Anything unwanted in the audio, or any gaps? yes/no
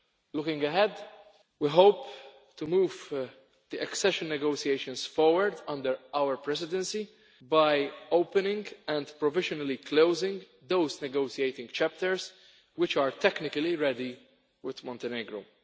no